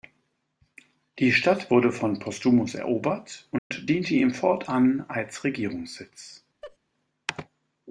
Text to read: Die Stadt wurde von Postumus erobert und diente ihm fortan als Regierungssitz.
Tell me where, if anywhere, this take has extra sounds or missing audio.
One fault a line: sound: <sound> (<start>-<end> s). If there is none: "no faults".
sound: dropout (3.6-3.7 s)
sound: laugh (6.6-6.8 s)